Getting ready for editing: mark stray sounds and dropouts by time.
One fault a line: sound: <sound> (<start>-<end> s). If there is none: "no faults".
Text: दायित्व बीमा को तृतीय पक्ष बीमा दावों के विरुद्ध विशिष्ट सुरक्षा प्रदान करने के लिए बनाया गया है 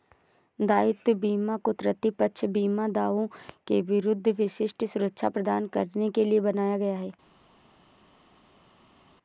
no faults